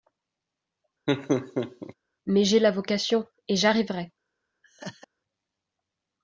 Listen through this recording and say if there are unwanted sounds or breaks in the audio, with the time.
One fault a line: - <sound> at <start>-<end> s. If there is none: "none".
- laugh at 1.1-1.9 s
- laugh at 4.6-5.1 s